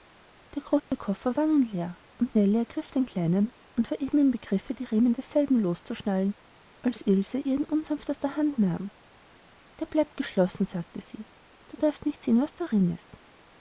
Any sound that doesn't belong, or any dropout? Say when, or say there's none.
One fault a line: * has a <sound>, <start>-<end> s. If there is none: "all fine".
* has a dropout, 0.8-0.9 s